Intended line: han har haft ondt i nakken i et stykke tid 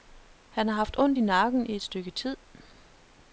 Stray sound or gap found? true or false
false